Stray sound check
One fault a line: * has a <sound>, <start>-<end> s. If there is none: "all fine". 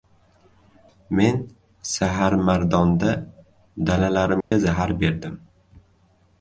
* has a dropout, 4.4-4.5 s